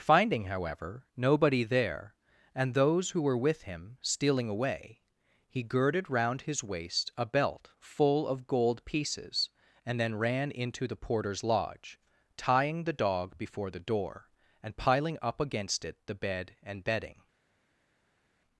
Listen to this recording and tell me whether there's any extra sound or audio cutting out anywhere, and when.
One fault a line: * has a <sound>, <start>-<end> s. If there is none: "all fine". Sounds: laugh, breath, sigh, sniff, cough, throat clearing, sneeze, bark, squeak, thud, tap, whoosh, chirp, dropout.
all fine